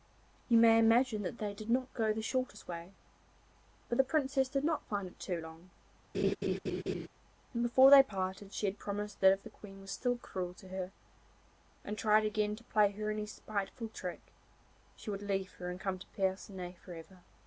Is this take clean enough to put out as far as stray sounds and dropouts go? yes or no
no